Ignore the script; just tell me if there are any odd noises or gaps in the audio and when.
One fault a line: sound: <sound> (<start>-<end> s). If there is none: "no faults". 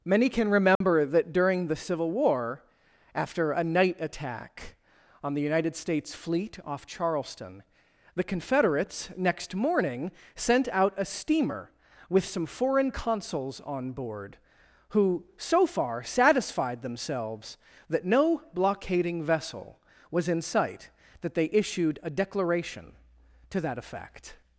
sound: dropout (0.8-0.8 s)